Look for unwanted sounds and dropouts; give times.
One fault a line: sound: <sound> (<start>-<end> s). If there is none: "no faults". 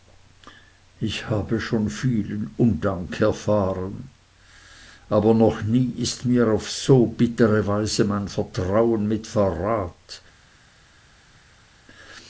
no faults